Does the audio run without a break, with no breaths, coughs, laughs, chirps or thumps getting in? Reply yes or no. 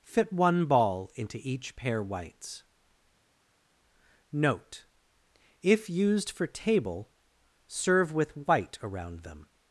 yes